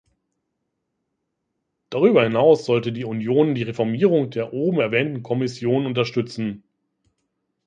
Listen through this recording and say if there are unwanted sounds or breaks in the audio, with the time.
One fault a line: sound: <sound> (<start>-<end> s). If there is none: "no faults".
no faults